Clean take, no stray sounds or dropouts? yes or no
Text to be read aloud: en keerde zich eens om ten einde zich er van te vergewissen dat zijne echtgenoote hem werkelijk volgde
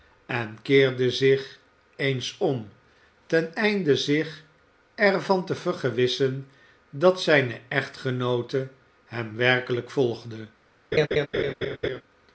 no